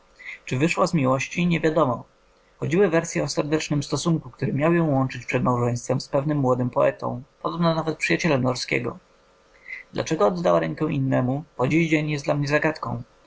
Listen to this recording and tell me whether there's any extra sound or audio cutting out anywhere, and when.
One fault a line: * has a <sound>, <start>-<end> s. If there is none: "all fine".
all fine